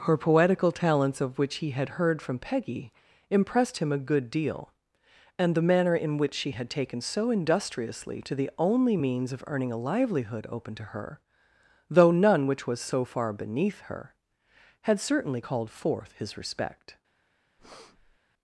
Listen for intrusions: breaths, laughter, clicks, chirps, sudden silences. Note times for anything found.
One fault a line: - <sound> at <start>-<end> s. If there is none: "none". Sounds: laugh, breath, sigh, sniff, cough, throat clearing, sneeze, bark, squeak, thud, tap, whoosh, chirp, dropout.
- breath at 17.6-18.2 s